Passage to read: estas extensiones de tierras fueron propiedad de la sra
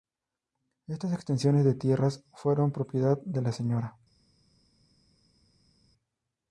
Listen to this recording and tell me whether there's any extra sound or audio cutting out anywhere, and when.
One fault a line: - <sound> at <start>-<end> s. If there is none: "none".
none